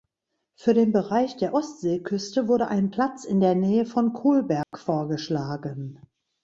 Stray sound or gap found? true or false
true